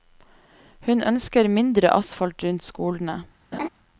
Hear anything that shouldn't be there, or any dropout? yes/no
yes